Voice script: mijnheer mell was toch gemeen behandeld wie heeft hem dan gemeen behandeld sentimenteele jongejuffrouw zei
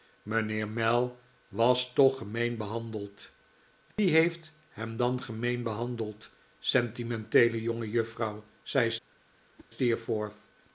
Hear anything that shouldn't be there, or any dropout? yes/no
yes